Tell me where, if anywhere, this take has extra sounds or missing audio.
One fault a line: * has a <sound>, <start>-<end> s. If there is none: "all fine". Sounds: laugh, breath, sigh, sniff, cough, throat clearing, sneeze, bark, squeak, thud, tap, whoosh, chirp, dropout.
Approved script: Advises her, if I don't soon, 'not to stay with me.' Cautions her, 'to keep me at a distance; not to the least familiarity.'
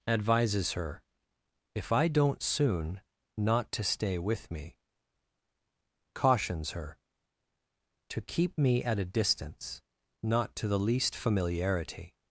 all fine